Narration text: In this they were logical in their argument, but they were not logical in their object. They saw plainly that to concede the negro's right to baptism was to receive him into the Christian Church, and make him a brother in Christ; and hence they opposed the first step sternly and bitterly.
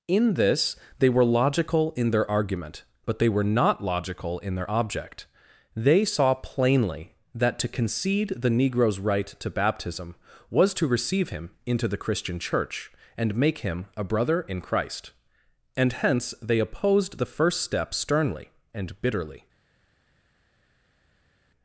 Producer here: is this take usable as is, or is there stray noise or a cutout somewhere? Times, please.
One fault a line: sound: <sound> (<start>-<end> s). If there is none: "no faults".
no faults